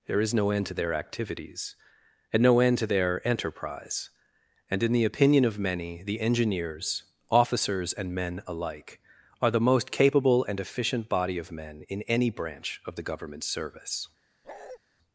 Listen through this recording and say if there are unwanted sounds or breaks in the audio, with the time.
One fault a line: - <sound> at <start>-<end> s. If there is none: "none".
- bark at 14.4-14.8 s